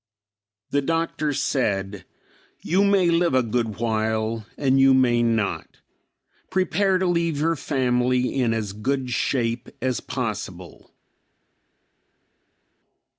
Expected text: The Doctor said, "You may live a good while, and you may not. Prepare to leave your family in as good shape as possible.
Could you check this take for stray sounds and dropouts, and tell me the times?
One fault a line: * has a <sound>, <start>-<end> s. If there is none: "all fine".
all fine